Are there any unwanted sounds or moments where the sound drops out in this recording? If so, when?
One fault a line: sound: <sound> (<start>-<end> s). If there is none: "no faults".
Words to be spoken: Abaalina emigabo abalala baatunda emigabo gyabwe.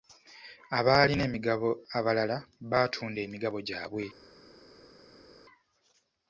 no faults